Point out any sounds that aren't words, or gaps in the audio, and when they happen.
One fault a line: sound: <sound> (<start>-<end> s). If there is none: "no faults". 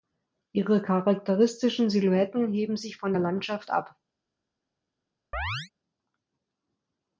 sound: chirp (5.3-5.7 s)